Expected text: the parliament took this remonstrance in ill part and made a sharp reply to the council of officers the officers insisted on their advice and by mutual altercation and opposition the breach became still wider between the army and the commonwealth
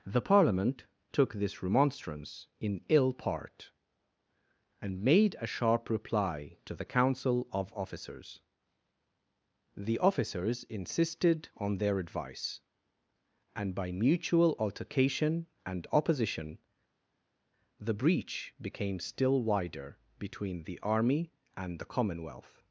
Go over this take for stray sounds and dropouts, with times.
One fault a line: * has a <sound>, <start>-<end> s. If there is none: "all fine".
all fine